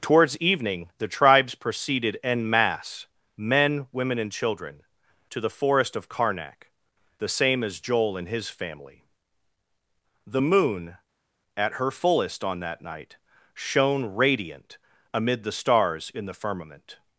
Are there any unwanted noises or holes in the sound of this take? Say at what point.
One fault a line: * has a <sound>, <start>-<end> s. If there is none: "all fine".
all fine